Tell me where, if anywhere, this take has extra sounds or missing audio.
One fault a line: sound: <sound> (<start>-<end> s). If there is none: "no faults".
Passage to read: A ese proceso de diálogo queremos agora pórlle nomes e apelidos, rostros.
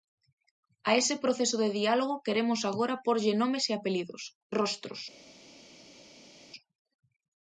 no faults